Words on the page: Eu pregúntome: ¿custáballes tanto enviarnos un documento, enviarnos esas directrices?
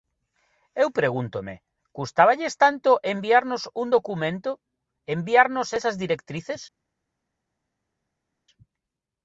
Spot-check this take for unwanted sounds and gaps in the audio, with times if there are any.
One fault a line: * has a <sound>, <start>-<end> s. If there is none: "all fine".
all fine